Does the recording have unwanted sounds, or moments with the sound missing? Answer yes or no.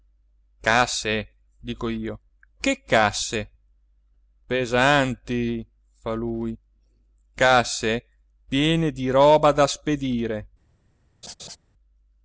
yes